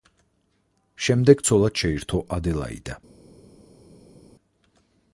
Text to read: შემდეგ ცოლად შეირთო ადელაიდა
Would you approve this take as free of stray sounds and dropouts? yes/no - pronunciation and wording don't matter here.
yes